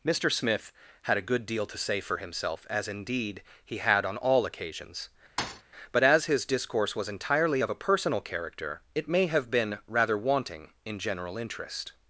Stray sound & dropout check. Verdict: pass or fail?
fail